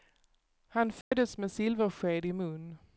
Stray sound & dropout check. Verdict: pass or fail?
fail